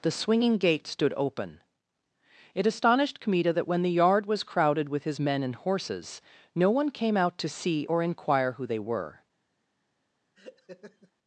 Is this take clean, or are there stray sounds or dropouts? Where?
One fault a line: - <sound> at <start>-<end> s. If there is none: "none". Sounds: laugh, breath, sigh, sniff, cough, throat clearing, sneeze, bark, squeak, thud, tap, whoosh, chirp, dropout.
- laugh at 10.3-11.1 s